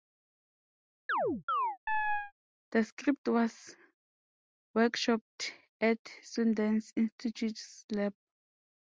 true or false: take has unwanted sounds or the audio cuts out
true